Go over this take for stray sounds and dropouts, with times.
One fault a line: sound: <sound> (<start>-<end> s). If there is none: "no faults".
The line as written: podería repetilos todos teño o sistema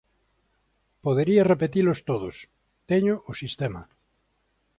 no faults